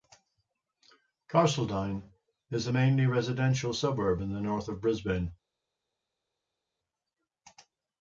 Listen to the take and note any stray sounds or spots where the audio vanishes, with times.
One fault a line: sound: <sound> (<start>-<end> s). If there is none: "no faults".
no faults